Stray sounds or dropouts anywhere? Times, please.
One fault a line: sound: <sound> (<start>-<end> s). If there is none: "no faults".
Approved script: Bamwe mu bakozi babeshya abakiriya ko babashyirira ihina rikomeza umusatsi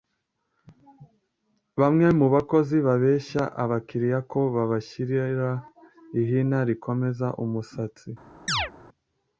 sound: chirp (8.5-8.7 s)